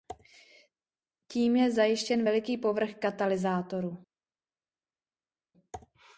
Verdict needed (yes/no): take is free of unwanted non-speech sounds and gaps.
yes